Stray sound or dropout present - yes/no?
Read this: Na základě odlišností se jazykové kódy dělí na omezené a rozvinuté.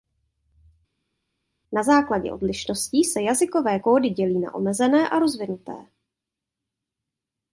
no